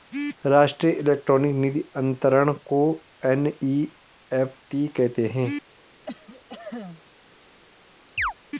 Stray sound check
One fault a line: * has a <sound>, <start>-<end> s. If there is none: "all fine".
* has a cough, 6.1-7.0 s
* has a chirp, 8.2-8.3 s